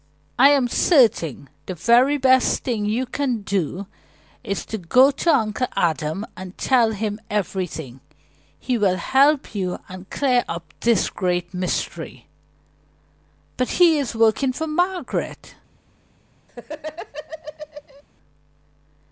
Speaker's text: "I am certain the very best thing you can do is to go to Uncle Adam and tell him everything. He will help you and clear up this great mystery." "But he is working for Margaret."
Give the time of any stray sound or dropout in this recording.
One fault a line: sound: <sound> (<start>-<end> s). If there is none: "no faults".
sound: laugh (16.5-18.0 s)